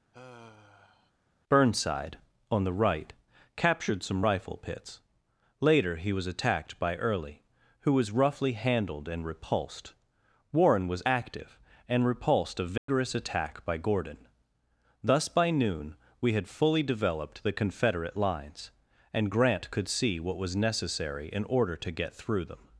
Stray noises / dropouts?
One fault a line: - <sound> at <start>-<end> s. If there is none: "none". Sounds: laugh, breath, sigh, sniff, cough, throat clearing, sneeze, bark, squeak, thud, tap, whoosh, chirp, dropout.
- sigh at 0.1-1.1 s
- dropout at 12.8-12.9 s